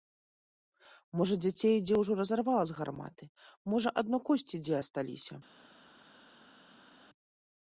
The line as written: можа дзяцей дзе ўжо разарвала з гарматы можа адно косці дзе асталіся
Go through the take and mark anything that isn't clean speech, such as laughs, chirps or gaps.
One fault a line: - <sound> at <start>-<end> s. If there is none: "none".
none